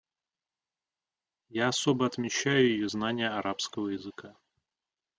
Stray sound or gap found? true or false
false